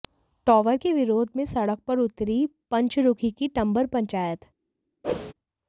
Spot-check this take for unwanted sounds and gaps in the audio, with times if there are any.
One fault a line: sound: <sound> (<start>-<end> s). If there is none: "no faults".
sound: whoosh (5.0-5.3 s)